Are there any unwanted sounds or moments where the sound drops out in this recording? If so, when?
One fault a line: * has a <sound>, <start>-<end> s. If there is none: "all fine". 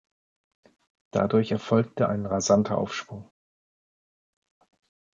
all fine